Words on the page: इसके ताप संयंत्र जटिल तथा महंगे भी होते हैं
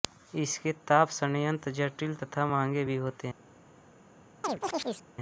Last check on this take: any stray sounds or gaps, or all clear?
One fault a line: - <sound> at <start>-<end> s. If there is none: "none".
- chirp at 4.4-5.1 s